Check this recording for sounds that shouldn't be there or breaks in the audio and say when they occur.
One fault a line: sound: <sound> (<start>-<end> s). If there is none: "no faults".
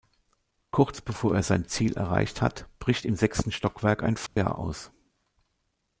sound: dropout (4.3-4.4 s)